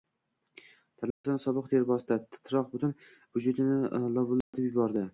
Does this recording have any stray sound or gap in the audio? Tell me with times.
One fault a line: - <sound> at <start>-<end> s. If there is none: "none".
- dropout at 1.1-1.2 s
- dropout at 4.4-4.5 s